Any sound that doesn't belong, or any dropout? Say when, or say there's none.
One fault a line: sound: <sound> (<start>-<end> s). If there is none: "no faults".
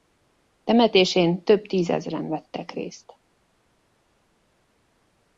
no faults